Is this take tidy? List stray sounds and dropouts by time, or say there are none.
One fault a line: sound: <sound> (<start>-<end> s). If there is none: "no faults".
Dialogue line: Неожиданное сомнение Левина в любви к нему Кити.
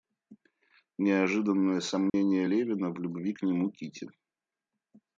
sound: dropout (2.1-2.1 s)